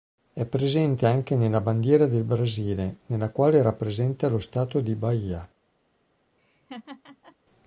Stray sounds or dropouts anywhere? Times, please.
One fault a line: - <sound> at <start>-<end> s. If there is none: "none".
- laugh at 6.4-7.4 s